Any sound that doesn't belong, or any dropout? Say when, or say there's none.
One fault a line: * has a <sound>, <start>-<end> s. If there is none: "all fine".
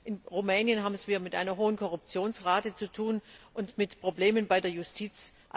all fine